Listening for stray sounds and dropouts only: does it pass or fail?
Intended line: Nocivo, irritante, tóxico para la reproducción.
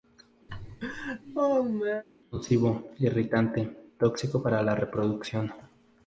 fail